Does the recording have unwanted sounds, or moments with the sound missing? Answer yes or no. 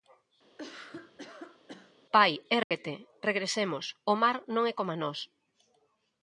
yes